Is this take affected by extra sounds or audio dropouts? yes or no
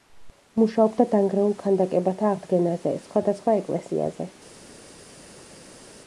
no